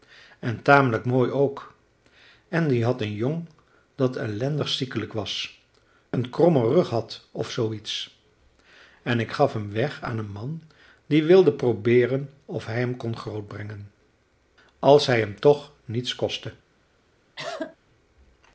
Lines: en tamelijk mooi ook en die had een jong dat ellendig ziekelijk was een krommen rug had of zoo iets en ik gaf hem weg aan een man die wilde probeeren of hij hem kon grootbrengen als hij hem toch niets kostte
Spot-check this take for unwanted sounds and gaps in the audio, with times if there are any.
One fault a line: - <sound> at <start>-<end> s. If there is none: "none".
- cough at 17.4-17.8 s